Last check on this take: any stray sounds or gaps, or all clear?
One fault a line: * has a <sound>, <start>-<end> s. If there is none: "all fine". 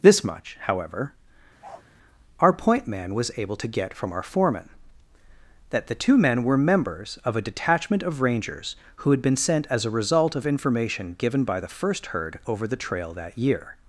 * has a bark, 1.6-1.9 s